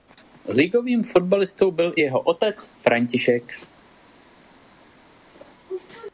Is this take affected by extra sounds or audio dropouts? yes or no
no